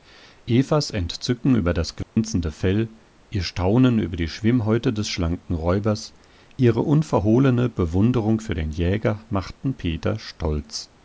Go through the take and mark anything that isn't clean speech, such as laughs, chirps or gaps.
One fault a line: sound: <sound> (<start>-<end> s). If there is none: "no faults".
sound: dropout (2.0-2.2 s)